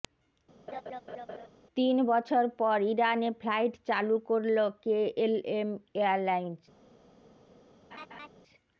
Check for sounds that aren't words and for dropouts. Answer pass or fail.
fail